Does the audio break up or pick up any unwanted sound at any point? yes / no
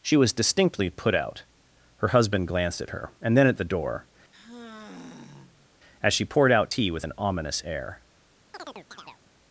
yes